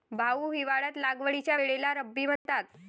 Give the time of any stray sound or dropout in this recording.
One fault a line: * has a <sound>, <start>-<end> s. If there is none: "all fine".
* has a dropout, 2.4-2.5 s